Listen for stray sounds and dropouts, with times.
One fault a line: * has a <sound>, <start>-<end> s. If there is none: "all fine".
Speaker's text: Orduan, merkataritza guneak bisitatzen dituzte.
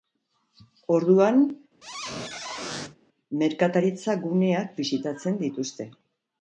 * has a squeak, 1.8-3.0 s